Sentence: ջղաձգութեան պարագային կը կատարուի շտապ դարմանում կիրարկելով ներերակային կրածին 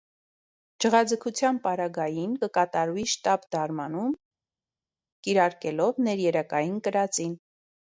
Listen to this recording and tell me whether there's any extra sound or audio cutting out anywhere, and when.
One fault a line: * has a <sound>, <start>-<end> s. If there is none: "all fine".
all fine